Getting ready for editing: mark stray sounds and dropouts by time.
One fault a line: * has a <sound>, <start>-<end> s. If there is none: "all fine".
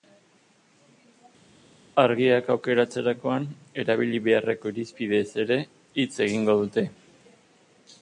all fine